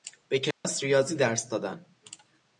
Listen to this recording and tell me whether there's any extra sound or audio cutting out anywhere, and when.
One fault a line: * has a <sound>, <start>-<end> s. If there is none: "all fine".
* has a dropout, 0.5-0.6 s